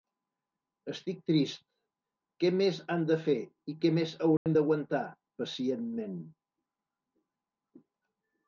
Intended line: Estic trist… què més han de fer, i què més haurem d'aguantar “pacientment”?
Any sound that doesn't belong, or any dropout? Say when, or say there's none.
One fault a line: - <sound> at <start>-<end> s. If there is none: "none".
- dropout at 4.4-4.5 s